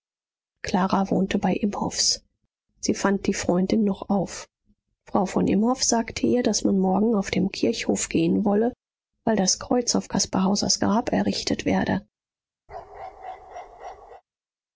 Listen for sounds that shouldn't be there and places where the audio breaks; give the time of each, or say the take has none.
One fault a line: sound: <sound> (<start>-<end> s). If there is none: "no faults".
sound: bark (12.7-14.2 s)